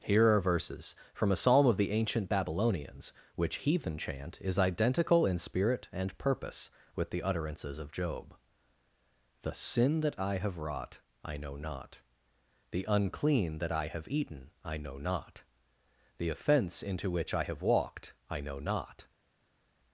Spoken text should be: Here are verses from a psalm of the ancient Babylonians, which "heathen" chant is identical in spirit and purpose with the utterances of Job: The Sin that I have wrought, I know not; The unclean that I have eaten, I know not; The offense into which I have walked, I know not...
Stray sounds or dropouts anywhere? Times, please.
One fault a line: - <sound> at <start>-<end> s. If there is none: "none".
none